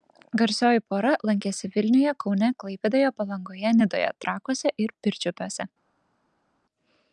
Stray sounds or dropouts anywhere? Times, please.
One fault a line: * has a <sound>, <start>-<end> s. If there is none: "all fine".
all fine